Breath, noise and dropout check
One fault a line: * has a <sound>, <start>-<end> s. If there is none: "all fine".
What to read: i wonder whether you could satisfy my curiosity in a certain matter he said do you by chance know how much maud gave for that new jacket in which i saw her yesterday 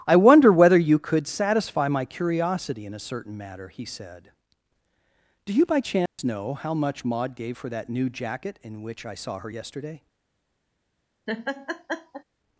* has a dropout, 6.1-6.2 s
* has a laugh, 11.3-12.2 s